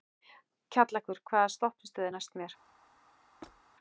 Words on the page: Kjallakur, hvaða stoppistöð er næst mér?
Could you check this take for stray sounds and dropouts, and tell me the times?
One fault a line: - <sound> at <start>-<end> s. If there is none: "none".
- squeak at 3.4-3.6 s